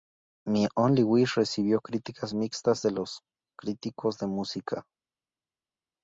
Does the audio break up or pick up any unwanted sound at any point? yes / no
no